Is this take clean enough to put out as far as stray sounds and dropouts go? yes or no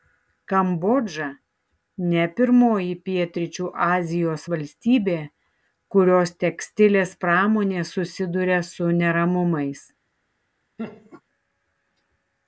no